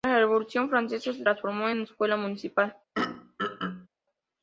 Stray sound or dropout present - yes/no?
yes